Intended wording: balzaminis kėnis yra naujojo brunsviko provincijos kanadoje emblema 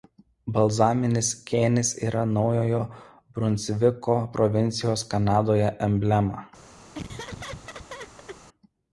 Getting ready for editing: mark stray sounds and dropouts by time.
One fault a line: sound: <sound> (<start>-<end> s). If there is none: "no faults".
sound: laugh (6.9-8.4 s)